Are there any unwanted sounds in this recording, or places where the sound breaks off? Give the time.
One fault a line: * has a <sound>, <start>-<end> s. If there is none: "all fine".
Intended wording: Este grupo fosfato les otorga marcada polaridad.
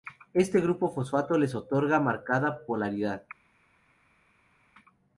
all fine